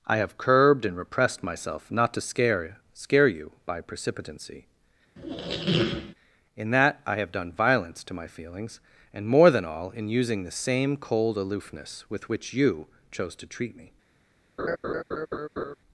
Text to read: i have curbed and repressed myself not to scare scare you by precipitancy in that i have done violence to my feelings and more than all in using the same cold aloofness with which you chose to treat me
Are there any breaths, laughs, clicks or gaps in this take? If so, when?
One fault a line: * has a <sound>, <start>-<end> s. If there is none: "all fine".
* has a squeak, 5.1-6.1 s
* has a laugh, 14.6-15.8 s